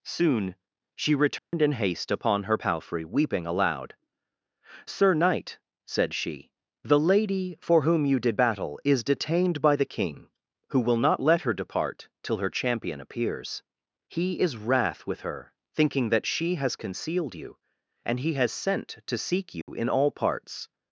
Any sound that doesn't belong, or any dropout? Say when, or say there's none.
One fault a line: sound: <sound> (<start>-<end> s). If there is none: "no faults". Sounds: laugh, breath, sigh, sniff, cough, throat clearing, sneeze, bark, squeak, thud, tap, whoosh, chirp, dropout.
sound: dropout (1.4-1.5 s)
sound: dropout (19.6-19.7 s)